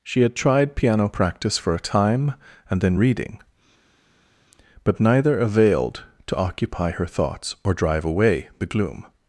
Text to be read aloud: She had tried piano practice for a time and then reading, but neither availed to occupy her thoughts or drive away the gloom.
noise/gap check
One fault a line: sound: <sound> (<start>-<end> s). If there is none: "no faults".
no faults